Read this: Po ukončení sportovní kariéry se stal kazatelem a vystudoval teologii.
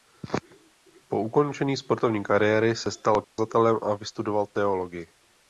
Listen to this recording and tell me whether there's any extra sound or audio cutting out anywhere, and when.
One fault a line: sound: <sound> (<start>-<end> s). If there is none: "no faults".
sound: dropout (3.2-3.4 s)